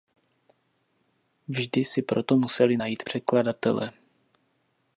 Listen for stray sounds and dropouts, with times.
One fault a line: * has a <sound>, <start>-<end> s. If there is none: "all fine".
all fine